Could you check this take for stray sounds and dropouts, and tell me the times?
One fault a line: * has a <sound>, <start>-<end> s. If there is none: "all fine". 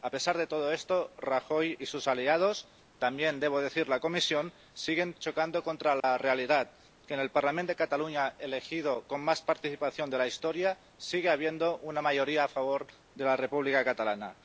* has a dropout, 6.0-6.0 s